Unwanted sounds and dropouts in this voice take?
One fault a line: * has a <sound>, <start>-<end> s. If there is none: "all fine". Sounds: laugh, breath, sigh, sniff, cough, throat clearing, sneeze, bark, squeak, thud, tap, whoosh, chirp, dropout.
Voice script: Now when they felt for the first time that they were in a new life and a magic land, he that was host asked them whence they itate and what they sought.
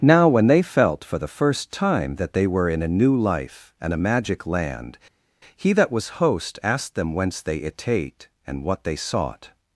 all fine